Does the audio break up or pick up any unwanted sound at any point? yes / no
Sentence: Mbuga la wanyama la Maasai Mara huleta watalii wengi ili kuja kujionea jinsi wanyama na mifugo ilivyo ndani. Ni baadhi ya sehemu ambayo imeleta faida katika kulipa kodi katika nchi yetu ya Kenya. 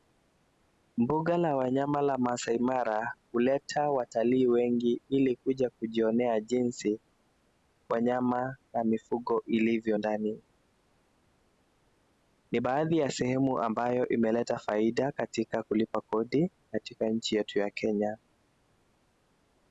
no